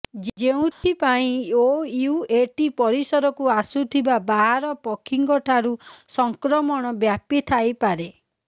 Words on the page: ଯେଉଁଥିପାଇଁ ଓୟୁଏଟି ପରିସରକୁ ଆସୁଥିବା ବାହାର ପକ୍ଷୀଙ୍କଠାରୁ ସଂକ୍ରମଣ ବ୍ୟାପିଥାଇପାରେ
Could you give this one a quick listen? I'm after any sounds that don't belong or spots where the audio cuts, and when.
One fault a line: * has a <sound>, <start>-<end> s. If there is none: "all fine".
* has a dropout, 0.7-0.8 s